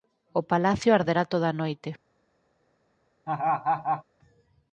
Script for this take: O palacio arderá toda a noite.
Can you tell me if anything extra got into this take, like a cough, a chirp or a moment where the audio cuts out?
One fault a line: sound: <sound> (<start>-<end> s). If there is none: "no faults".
sound: laugh (3.3-4.0 s)